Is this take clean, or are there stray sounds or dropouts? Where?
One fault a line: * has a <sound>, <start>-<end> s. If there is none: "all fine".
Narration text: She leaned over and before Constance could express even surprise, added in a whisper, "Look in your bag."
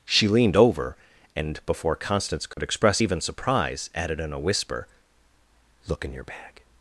* has a dropout, 2.5-2.6 s